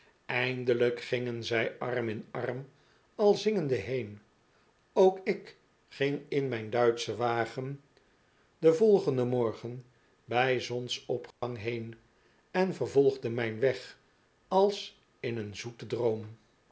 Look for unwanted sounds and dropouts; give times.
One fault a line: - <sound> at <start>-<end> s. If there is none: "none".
- dropout at 11.3-11.4 s